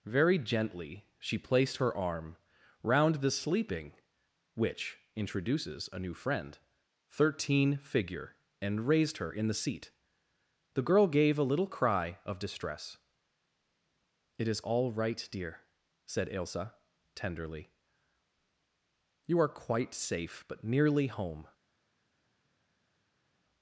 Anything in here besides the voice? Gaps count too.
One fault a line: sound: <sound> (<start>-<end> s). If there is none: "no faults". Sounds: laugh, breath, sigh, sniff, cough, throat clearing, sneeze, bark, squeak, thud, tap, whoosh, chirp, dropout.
no faults